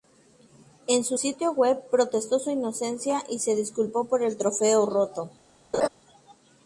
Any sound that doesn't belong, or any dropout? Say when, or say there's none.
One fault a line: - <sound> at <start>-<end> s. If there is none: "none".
- laugh at 5.7-5.9 s